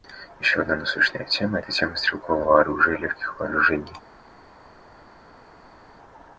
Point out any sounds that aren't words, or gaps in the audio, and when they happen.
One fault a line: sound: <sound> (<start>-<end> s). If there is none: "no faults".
no faults